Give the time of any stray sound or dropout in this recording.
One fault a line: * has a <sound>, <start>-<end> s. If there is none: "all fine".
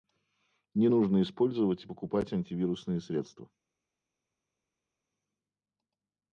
all fine